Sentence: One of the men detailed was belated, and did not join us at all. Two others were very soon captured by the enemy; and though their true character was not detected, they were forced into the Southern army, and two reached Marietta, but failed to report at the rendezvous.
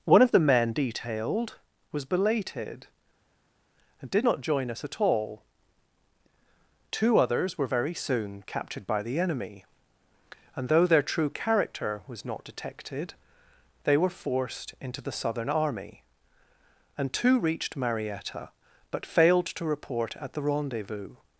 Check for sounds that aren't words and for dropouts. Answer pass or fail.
pass